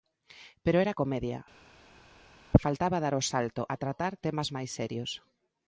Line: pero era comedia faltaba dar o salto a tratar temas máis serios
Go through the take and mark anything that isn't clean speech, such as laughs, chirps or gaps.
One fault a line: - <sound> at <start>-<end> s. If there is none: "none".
none